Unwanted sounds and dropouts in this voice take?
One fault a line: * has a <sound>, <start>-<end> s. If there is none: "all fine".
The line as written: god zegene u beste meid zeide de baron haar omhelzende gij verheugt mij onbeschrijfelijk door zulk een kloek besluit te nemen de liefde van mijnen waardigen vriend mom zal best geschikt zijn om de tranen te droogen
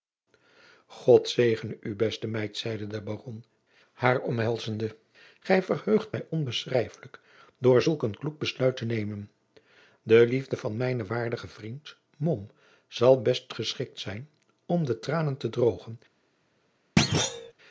* has a thud, 17.0-17.5 s